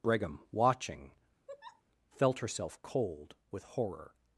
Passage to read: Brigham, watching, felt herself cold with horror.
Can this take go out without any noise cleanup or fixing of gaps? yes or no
no